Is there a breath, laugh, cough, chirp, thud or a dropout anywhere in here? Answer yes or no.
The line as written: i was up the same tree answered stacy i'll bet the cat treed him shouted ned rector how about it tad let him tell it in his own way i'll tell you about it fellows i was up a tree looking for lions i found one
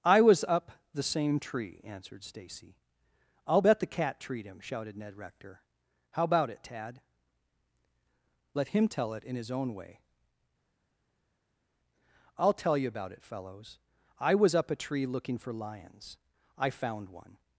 no